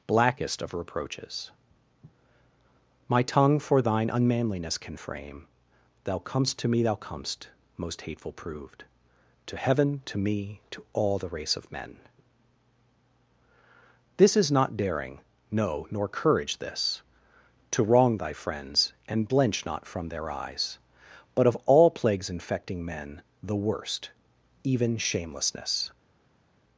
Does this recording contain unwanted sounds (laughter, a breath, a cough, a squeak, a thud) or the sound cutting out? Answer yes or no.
no